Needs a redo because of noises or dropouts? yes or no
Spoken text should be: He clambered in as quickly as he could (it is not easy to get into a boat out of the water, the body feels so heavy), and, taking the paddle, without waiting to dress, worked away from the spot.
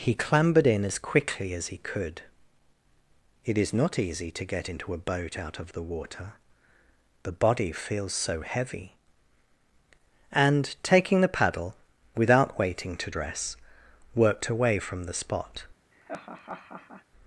yes